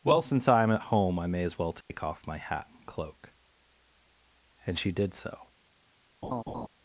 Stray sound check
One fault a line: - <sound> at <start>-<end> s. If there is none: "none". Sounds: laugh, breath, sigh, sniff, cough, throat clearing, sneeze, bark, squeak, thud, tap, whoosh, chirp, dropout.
- dropout at 1.8-1.9 s
- laugh at 6.2-6.7 s